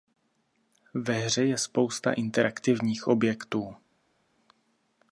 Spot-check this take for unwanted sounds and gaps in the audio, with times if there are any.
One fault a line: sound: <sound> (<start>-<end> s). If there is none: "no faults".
no faults